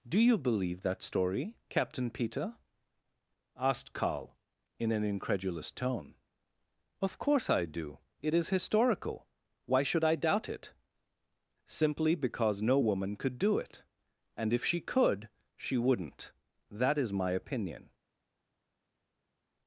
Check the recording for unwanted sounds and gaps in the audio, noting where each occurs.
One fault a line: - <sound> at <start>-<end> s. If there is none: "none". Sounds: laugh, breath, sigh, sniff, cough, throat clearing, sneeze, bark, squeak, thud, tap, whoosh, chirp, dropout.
none